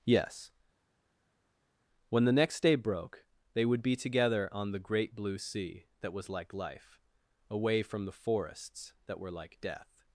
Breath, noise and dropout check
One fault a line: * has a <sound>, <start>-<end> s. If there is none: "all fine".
all fine